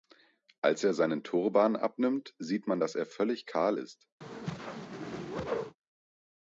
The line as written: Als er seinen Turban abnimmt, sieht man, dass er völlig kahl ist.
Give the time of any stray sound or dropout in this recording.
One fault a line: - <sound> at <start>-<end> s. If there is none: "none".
- whoosh at 4.2-5.8 s